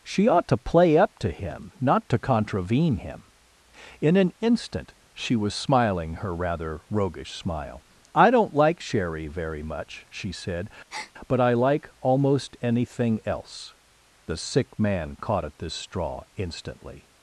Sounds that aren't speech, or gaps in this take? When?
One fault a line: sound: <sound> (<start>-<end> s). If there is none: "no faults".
sound: breath (10.9-11.1 s)